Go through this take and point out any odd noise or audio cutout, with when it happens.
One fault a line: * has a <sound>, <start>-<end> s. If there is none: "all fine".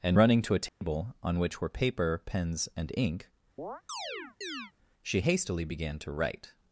* has a dropout, 0.7-0.8 s
* has a chirp, 3.6-4.7 s